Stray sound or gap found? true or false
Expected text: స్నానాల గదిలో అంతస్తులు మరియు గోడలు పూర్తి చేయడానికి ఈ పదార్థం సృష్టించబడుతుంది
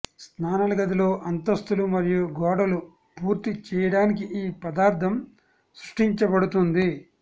false